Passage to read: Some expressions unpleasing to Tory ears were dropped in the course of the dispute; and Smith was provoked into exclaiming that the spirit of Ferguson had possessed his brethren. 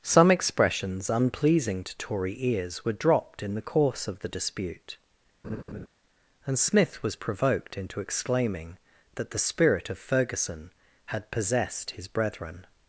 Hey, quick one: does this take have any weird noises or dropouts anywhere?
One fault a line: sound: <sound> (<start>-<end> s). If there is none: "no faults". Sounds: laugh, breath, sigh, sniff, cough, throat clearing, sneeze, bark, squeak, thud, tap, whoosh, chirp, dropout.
sound: laugh (5.4-5.9 s)